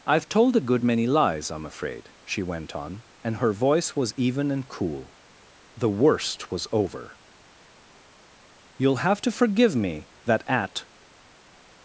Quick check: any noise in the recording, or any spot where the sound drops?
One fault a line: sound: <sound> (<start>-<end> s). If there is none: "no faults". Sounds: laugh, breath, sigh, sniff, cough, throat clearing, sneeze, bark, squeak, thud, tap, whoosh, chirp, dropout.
no faults